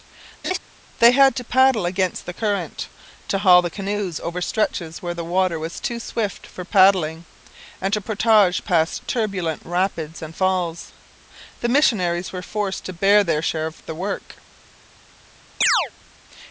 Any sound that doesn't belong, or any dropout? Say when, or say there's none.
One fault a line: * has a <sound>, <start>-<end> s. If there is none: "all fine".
* has a laugh, 0.4-0.6 s
* has a chirp, 15.6-15.9 s